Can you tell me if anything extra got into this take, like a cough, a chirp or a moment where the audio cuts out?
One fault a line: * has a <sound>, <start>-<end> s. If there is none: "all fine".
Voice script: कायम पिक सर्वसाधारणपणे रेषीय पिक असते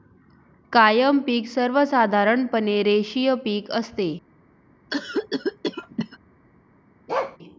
* has a cough, 4.9-6.2 s
* has a bark, 7.1-7.4 s